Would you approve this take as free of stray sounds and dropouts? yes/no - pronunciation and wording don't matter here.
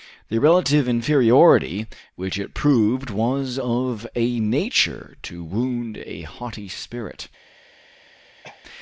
no